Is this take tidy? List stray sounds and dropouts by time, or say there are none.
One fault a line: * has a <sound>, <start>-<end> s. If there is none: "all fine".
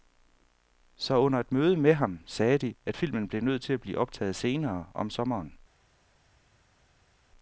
all fine